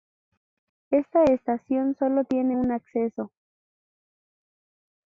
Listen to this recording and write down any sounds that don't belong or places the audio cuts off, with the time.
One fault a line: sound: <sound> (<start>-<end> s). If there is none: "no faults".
no faults